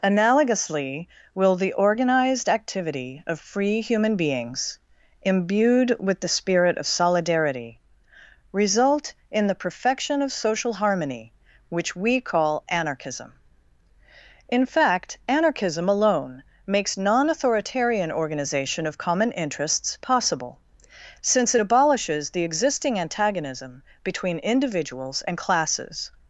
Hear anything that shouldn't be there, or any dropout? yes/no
no